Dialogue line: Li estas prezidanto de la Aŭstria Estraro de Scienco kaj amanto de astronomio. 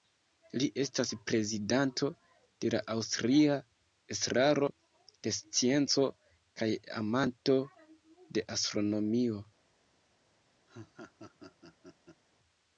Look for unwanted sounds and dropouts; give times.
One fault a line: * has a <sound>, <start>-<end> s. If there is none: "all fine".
* has a laugh, 10.7-12.2 s